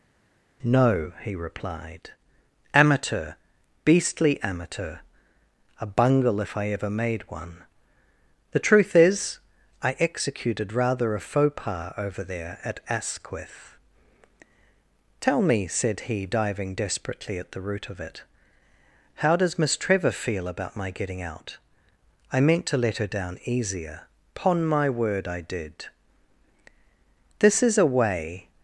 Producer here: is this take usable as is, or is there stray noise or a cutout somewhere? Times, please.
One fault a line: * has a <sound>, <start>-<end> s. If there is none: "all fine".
all fine